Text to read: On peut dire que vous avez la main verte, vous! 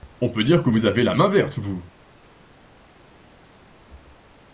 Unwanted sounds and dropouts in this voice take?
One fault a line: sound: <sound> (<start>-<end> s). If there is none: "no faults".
no faults